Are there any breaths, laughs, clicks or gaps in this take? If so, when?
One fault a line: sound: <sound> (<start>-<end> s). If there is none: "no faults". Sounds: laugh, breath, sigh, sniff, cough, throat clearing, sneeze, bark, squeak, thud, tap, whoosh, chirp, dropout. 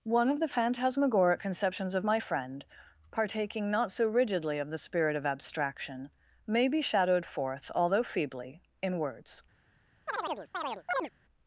sound: chirp (10.1-11.1 s)